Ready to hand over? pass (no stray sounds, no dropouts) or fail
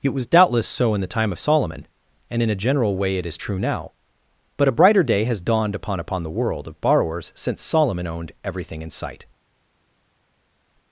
pass